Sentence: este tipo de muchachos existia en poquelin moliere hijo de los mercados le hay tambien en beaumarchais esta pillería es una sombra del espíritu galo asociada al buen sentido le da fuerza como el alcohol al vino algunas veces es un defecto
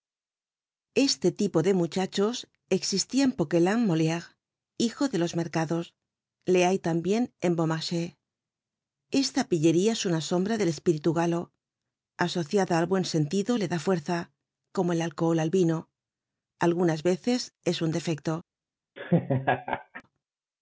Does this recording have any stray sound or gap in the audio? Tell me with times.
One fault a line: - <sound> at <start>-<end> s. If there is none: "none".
- laugh at 19.0-20.0 s